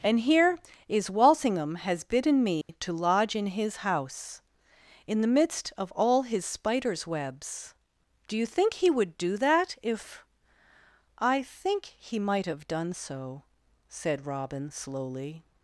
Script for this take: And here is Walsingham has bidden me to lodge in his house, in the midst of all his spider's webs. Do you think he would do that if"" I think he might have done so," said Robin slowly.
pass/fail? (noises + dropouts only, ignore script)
fail